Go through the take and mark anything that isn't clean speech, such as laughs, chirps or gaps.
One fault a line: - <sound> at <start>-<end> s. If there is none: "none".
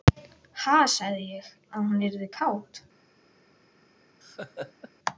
- laugh at 4.2-4.9 s